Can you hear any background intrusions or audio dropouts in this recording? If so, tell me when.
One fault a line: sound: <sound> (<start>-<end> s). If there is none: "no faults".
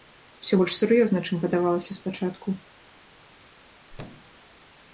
sound: thud (3.9-4.4 s)